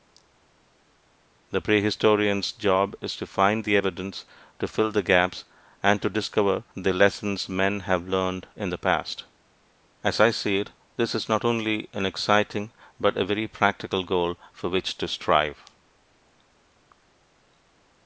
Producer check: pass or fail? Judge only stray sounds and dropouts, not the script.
pass